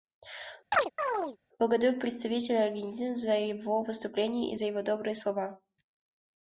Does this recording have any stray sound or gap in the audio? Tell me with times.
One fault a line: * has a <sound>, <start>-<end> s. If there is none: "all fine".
* has a chirp, 0.7-1.4 s